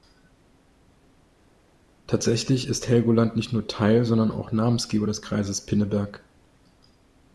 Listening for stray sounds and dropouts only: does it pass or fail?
pass